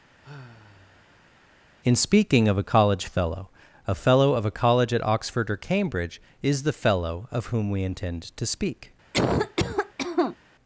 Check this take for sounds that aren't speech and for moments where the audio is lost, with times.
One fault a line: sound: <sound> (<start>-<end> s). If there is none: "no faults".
sound: sigh (0.2-1.7 s)
sound: cough (9.1-10.4 s)